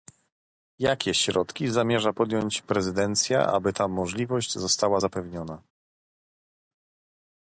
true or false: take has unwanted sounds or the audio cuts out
false